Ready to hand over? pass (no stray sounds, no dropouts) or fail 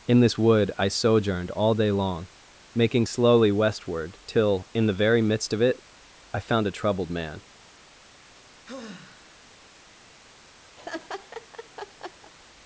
fail